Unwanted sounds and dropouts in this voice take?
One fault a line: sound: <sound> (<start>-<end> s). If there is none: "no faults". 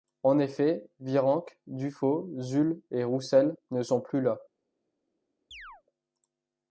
sound: chirp (5.5-5.8 s)